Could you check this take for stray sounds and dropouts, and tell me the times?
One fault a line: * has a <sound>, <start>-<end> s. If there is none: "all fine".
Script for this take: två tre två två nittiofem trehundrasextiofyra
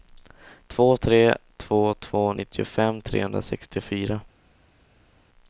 all fine